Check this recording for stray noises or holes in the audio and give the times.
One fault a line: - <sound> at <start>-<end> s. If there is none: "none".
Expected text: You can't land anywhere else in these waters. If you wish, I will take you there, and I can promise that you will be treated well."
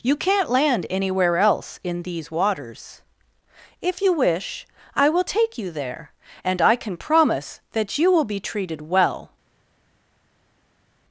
none